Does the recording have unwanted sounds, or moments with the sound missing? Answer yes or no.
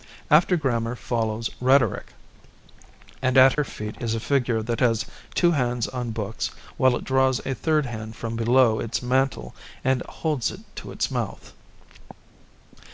yes